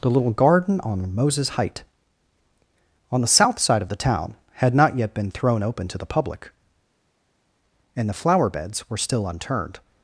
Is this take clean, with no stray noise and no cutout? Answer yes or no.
yes